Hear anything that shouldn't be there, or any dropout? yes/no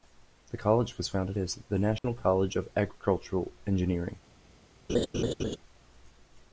yes